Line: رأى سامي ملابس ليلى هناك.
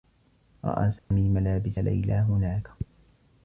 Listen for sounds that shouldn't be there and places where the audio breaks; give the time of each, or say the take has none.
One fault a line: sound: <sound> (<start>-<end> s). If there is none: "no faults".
sound: dropout (1.0-1.1 s)